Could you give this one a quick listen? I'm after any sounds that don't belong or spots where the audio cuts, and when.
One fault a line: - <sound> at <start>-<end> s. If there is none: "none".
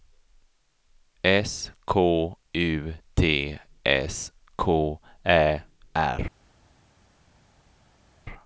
none